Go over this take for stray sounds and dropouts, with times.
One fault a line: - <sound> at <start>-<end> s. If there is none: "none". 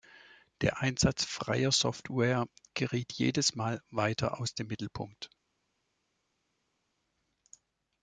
none